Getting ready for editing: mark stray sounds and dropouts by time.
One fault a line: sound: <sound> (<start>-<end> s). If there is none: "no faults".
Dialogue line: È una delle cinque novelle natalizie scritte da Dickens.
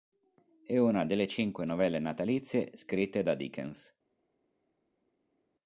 no faults